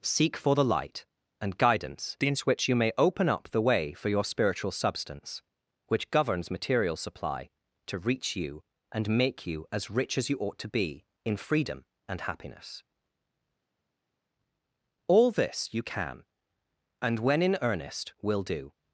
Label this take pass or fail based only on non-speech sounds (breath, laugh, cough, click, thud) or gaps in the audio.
pass